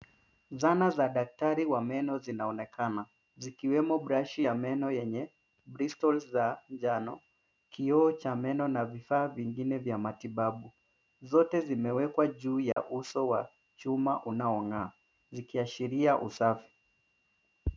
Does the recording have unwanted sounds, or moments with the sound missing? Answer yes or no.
yes